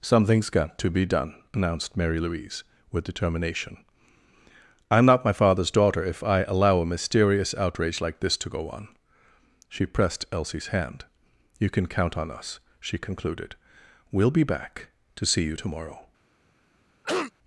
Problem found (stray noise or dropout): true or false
true